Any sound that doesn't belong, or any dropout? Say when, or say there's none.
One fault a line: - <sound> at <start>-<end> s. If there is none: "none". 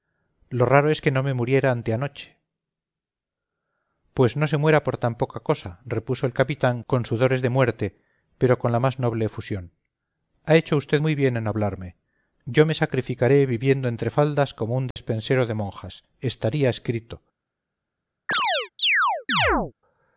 - dropout at 14.9-15.0 s
- chirp at 18.3-19.7 s